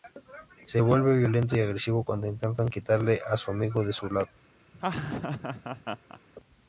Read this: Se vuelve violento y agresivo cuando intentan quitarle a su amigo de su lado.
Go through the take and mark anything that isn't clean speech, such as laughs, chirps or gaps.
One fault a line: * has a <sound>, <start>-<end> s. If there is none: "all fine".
* has a laugh, 4.7-6.2 s